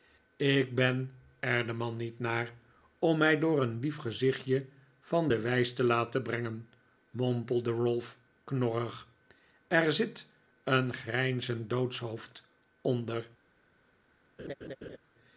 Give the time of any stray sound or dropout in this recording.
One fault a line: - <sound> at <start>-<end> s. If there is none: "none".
- laugh at 14.4-15.0 s